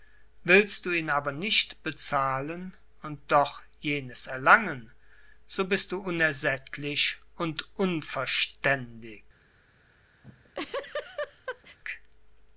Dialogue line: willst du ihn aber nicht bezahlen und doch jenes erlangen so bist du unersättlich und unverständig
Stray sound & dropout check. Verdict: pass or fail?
fail